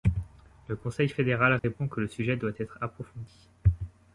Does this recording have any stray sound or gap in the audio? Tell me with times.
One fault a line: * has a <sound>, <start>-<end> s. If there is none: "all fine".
* has a dropout, 1.6-1.6 s